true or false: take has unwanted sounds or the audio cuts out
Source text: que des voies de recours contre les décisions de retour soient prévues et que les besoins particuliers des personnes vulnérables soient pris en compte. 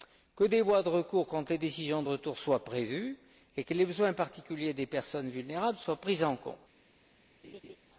true